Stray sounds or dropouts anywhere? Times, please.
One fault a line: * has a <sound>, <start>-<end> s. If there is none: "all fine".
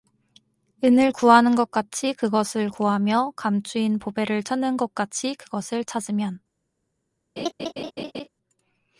* has a laugh, 7.4-8.3 s